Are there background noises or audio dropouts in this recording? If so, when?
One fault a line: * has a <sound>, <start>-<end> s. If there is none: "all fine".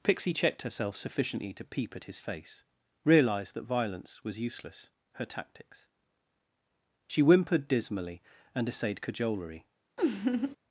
* has a laugh, 10.0-10.6 s